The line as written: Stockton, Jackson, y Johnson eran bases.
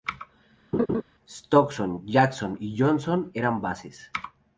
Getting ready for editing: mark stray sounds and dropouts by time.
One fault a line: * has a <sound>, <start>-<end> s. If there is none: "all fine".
* has a laugh, 0.7-1.0 s